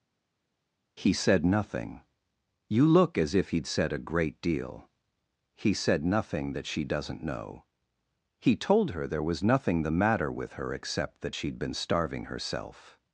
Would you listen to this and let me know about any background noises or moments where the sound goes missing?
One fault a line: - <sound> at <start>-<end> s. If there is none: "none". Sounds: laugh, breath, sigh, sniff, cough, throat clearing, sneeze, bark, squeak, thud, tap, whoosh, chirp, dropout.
none